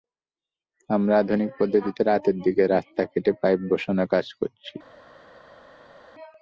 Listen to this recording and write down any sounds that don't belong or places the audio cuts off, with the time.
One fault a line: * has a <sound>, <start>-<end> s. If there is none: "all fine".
all fine